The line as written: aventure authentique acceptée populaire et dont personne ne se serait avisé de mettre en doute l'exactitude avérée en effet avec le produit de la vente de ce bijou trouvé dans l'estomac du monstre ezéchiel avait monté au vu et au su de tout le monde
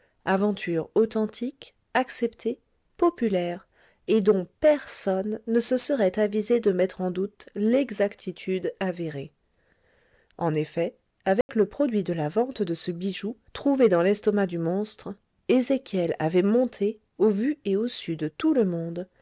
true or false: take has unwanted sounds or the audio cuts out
true